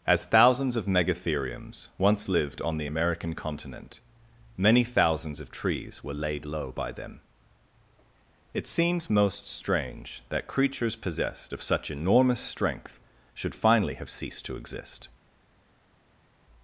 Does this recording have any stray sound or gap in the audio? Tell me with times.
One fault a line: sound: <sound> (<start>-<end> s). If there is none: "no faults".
no faults